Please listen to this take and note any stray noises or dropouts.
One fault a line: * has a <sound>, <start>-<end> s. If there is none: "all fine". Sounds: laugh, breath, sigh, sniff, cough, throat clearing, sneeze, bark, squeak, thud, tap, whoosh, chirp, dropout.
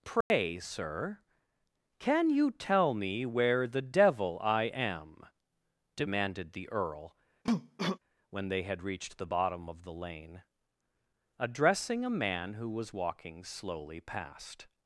* has a dropout, 0.2-0.3 s
* has a cough, 7.4-8.0 s